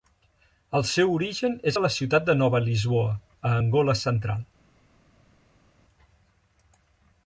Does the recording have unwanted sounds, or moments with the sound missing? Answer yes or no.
no